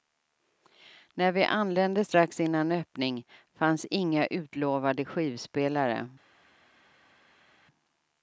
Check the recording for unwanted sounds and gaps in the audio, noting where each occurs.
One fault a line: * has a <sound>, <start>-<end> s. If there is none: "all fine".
all fine